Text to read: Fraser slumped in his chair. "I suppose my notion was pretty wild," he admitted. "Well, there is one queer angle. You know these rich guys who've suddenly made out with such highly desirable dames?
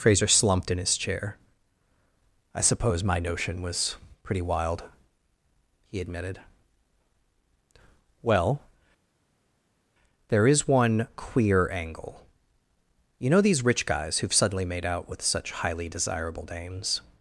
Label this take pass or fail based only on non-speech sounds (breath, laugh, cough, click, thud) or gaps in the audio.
pass